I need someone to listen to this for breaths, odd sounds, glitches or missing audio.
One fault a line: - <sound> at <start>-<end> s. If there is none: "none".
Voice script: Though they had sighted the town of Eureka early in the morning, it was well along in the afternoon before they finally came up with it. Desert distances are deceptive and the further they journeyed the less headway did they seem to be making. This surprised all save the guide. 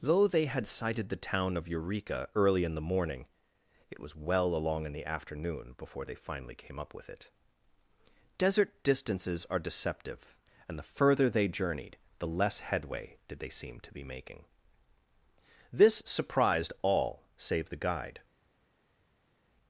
none